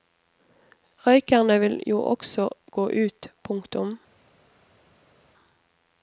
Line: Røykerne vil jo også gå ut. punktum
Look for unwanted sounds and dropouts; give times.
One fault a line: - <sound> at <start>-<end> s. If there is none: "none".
none